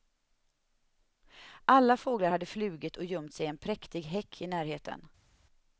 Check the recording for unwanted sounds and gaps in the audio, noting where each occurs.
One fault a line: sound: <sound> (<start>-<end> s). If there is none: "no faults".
no faults